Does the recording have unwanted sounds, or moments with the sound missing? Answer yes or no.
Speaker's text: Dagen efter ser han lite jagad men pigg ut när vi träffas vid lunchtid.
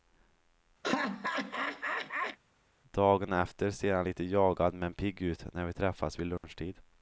yes